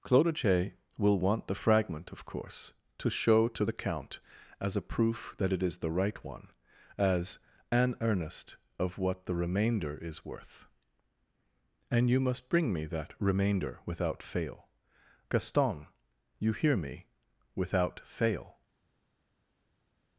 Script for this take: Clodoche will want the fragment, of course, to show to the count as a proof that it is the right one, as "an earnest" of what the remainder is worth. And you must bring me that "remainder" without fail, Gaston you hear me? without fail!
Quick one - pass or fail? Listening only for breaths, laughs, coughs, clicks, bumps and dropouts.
pass